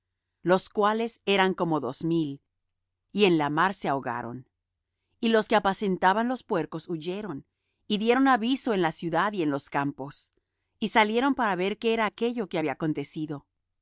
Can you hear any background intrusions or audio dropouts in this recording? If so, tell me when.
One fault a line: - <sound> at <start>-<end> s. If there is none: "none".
none